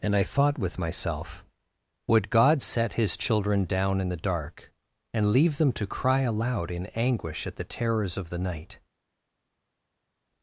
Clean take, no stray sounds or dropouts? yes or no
yes